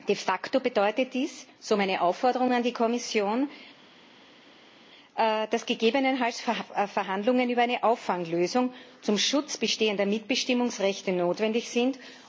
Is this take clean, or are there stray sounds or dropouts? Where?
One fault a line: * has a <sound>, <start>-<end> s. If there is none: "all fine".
all fine